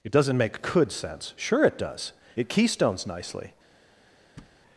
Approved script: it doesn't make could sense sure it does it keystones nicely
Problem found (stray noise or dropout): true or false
true